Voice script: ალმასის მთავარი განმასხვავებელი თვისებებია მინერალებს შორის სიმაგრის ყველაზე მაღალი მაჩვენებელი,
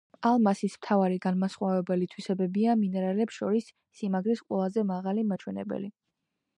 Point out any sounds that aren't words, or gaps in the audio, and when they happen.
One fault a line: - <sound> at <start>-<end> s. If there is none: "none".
none